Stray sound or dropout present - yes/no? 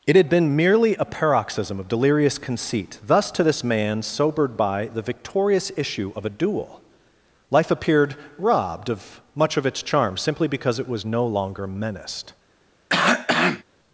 yes